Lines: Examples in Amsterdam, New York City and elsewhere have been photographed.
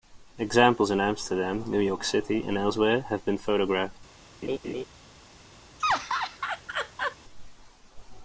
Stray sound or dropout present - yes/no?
yes